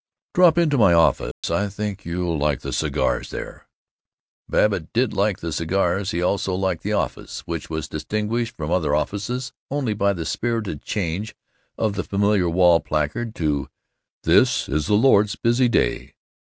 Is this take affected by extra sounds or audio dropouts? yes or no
yes